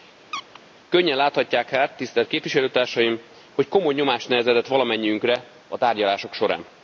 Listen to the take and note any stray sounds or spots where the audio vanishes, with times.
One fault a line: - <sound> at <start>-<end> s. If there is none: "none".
- squeak at 0.3-0.6 s